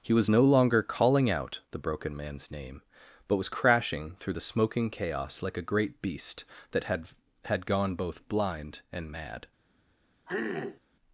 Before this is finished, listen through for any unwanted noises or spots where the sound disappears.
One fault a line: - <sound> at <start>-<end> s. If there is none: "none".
- throat clearing at 10.3-10.8 s